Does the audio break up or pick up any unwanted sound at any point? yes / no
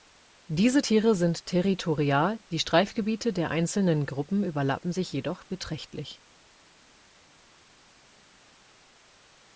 no